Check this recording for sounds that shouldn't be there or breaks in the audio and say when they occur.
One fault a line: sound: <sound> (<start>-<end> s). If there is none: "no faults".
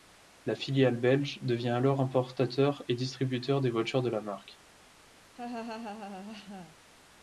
sound: laugh (5.3-6.8 s)